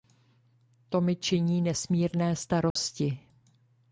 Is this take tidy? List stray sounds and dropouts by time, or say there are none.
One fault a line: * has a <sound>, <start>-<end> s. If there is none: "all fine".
* has a dropout, 2.7-2.8 s